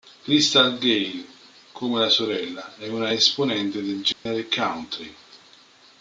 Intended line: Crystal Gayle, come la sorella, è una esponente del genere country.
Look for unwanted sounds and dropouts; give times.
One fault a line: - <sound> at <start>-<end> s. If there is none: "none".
- dropout at 4.1-4.3 s